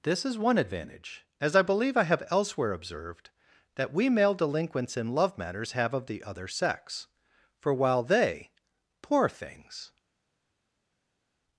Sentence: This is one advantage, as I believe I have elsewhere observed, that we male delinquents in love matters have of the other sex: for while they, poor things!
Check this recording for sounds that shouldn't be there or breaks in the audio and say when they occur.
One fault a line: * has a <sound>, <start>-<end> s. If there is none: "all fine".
all fine